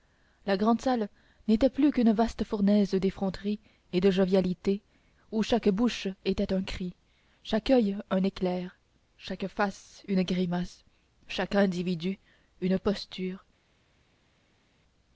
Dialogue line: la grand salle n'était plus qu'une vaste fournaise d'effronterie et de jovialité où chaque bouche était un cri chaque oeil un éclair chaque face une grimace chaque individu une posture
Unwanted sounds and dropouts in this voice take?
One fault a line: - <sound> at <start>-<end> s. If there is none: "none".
none